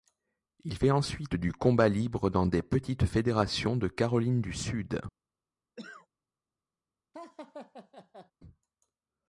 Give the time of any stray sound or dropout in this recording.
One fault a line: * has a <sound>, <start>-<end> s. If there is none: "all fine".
* has a cough, 5.8-6.1 s
* has a laugh, 7.1-8.3 s